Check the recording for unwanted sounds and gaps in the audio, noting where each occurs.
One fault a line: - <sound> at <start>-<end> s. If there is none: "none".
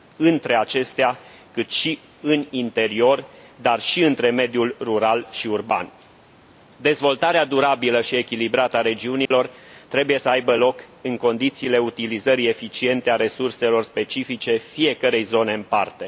- dropout at 9.3-9.3 s